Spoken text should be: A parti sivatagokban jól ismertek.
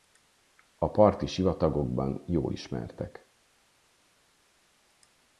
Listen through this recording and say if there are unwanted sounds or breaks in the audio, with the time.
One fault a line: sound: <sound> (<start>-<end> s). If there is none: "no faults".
no faults